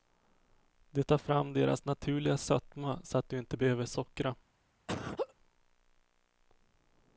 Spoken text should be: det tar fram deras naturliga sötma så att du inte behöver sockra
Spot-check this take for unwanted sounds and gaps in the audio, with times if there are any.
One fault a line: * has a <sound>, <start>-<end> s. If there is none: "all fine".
* has a laugh, 4.9-5.3 s